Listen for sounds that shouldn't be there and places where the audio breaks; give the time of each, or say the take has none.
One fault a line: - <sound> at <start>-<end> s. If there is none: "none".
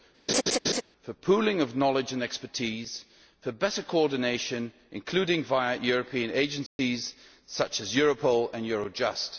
- laugh at 0.3-0.8 s
- dropout at 6.7-6.8 s